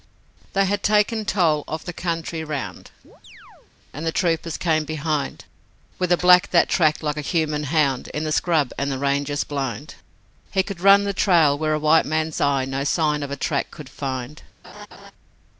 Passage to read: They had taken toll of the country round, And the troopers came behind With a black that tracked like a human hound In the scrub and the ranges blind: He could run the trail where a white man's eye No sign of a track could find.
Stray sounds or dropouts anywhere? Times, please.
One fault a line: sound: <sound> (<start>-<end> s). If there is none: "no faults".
sound: chirp (3.0-3.7 s)
sound: laugh (14.6-15.1 s)